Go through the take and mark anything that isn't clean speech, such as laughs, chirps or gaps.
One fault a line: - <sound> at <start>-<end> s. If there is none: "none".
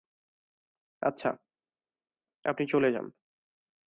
none